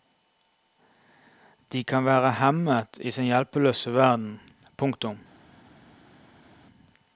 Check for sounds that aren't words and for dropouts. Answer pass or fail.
pass